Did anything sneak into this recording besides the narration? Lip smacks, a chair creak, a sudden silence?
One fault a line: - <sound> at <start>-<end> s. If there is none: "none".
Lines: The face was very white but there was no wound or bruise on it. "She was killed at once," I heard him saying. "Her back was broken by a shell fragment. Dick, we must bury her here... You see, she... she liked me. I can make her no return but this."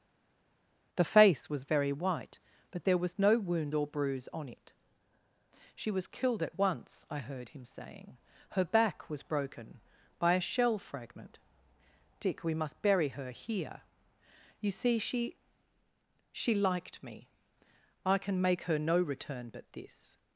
none